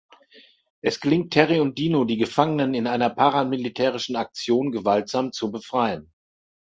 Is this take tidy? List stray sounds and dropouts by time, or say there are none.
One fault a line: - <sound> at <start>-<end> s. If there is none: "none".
none